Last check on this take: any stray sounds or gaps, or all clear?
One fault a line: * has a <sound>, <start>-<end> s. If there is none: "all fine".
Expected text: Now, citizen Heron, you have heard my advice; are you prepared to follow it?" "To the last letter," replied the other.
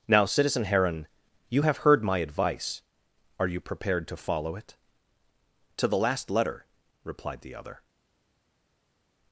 all fine